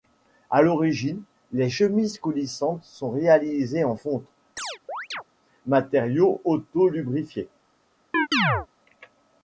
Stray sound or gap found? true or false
true